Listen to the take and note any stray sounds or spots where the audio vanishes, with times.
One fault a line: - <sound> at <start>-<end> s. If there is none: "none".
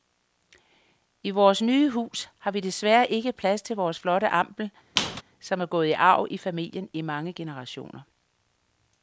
- squeak at 5.0-5.2 s